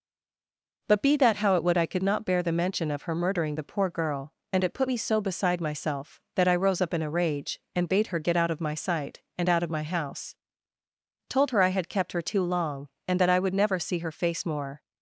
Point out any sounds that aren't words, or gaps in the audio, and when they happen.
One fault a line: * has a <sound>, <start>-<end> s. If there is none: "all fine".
all fine